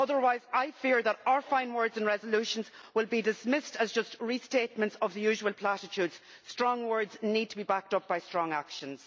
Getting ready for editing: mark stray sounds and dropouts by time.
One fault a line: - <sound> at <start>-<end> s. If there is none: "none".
none